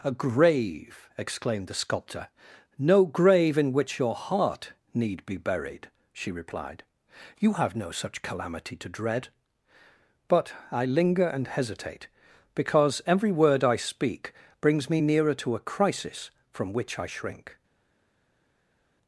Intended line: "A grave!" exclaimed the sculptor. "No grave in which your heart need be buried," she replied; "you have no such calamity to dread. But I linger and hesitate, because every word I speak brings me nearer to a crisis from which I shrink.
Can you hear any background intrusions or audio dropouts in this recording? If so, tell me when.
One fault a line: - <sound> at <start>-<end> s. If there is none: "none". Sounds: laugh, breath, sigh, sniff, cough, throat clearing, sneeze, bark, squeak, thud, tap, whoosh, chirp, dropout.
none